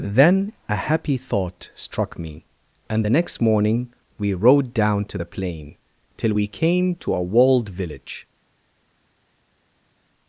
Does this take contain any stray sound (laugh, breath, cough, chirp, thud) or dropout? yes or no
no